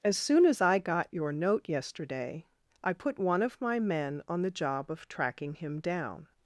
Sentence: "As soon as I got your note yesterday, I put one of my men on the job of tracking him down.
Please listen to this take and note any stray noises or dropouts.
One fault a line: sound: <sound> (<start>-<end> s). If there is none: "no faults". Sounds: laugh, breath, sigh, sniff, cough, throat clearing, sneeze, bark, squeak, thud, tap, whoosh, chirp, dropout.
no faults